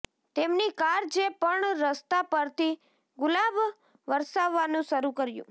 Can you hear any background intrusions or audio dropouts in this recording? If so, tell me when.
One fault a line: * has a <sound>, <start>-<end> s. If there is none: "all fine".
all fine